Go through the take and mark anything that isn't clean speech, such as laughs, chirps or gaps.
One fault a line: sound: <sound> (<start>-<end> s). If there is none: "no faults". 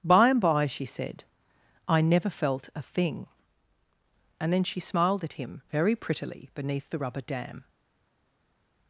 no faults